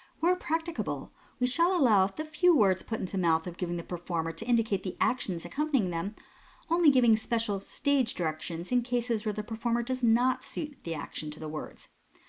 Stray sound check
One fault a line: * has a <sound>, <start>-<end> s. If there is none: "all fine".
all fine